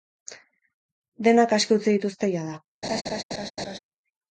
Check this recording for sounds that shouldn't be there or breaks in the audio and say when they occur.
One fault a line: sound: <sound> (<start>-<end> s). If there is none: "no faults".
sound: laugh (2.8-3.8 s)